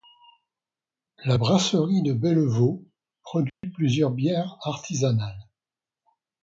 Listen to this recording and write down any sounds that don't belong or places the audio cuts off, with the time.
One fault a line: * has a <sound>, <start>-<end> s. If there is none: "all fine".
* has a dropout, 3.5-3.6 s